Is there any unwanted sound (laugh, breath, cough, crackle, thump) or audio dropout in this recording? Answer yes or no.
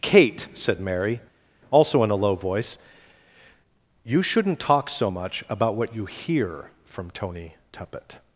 no